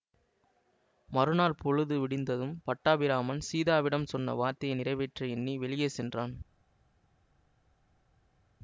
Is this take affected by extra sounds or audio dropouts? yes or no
no